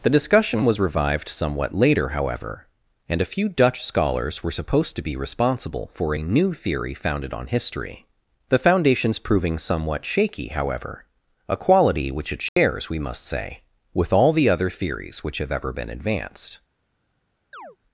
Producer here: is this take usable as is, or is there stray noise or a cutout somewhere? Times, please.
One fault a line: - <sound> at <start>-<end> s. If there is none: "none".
- dropout at 12.5-12.6 s
- chirp at 17.5-17.8 s